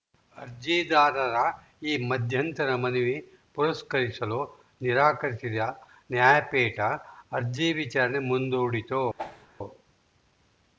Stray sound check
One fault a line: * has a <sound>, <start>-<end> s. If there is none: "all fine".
* has a whoosh, 9.2-9.5 s